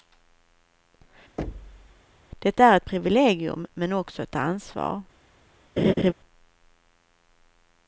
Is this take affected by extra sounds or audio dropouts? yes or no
yes